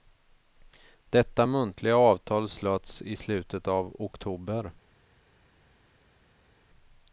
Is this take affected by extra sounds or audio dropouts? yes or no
no